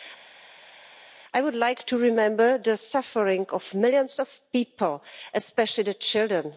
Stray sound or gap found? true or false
false